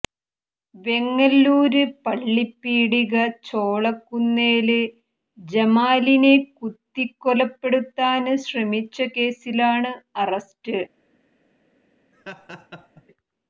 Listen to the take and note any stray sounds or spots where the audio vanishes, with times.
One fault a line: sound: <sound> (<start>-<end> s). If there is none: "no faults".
sound: laugh (12.1-13.0 s)